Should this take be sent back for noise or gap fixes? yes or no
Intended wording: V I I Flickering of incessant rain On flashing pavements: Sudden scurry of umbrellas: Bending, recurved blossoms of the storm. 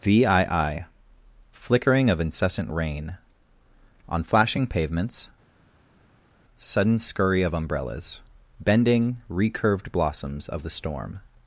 no